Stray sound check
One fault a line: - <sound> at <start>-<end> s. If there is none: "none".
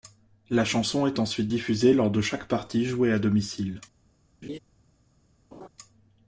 - laugh at 4.4-4.6 s
- laugh at 5.5-5.7 s